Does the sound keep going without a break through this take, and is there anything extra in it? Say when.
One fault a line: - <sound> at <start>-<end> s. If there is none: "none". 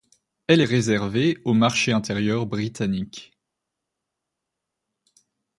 none